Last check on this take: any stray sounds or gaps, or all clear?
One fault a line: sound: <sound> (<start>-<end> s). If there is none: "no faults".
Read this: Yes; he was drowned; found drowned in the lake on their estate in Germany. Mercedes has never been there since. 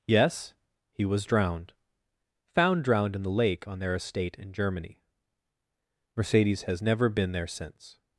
no faults